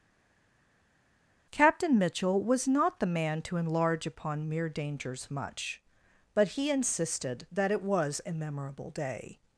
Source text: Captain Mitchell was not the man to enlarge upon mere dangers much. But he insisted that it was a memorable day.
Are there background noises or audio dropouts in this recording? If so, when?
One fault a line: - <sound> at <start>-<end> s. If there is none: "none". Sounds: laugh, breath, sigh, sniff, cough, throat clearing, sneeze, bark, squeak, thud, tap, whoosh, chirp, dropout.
none